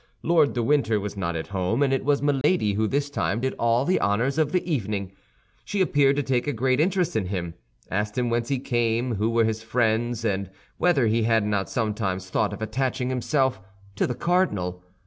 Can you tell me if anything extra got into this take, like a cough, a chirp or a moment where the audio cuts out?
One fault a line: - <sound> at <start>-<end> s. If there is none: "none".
- dropout at 2.4-2.4 s